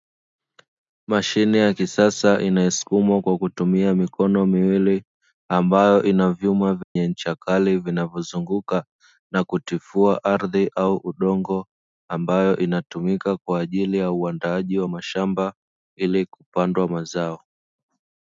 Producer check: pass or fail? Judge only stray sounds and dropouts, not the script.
fail